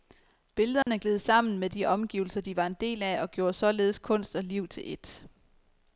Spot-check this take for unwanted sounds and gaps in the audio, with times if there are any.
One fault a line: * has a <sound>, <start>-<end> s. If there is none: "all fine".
* has a dropout, 0.8-0.9 s